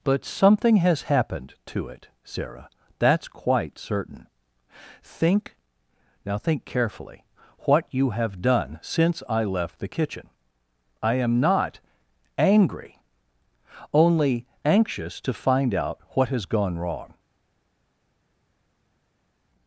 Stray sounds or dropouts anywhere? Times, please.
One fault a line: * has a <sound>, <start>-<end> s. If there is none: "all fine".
all fine